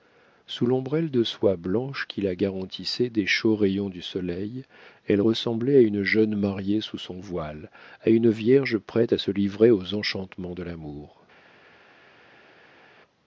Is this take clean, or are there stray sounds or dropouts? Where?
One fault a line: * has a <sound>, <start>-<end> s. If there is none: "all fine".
all fine